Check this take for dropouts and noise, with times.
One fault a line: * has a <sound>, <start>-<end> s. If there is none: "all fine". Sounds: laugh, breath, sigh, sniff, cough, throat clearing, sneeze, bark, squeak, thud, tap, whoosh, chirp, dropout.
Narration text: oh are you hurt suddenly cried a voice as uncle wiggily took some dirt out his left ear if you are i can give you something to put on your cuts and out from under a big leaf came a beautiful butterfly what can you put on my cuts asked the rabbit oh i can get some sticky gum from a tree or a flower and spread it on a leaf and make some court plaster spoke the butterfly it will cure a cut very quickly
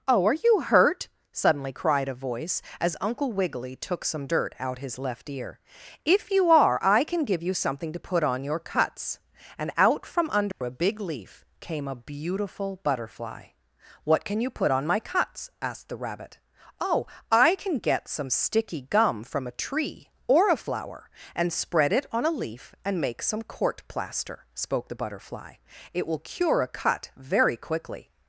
* has a dropout, 10.5-10.6 s